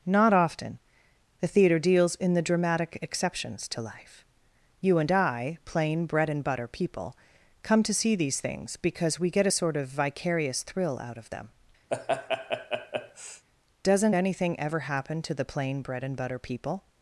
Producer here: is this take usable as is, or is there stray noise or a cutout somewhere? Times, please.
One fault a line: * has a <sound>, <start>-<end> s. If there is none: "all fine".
* has a laugh, 11.9-13.5 s